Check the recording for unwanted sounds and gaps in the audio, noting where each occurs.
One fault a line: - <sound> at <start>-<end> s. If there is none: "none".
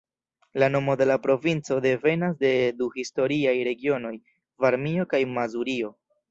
none